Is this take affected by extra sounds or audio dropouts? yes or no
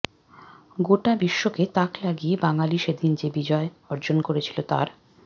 no